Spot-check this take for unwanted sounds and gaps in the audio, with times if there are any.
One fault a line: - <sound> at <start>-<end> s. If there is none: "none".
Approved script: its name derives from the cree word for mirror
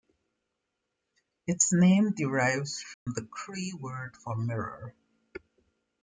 - dropout at 2.9-3.1 s